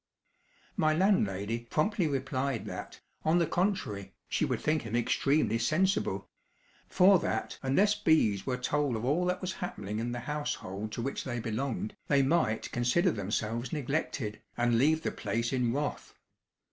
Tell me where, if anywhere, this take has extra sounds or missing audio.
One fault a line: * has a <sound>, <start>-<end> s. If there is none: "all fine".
all fine